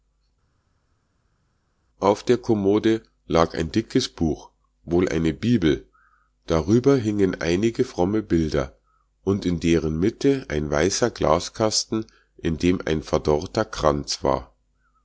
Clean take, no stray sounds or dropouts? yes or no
yes